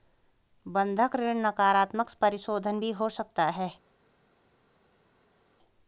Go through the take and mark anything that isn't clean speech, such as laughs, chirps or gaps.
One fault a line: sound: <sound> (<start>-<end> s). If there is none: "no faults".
no faults